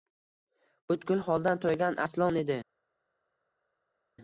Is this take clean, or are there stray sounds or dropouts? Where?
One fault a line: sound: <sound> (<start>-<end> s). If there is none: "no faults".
no faults